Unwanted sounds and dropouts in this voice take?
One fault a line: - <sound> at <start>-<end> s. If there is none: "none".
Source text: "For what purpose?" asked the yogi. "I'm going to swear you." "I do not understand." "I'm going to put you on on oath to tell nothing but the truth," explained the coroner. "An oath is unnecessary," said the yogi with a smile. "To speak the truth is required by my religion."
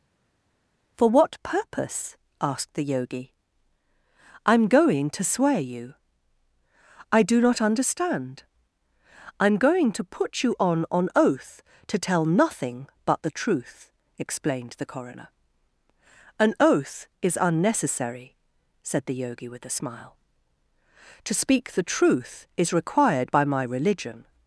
none